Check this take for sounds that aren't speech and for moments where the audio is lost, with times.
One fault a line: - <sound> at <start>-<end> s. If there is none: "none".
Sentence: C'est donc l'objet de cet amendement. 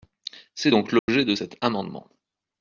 - dropout at 1.0-1.1 s